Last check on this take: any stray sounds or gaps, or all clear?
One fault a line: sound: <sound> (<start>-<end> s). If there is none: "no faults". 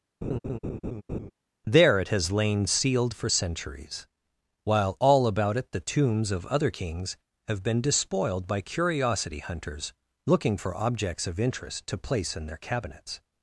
sound: laugh (0.2-1.3 s)